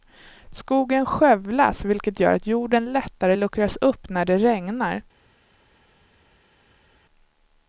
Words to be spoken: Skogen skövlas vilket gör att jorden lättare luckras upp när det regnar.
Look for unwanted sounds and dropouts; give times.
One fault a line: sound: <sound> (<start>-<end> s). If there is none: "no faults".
no faults